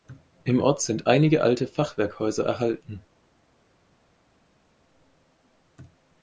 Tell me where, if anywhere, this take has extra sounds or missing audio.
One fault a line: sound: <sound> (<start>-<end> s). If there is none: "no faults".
no faults